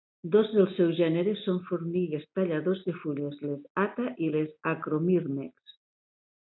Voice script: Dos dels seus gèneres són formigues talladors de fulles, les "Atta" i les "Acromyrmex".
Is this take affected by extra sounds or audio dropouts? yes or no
no